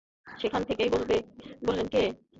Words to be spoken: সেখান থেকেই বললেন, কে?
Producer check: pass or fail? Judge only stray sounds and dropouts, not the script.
pass